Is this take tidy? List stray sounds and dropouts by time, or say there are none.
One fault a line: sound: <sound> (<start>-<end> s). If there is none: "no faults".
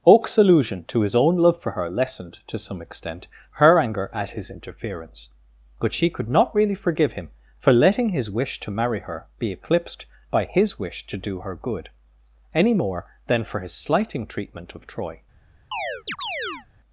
sound: chirp (15.7-16.7 s)